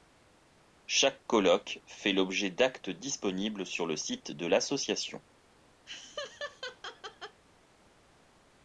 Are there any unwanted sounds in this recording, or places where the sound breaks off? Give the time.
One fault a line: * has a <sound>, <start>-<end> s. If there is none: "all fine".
* has a laugh, 5.9-7.4 s